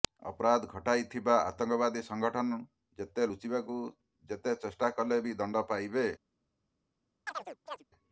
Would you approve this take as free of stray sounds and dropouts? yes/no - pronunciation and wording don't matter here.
no